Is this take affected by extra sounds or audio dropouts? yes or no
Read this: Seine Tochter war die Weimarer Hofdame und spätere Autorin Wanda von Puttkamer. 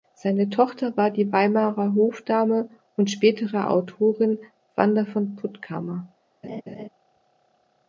yes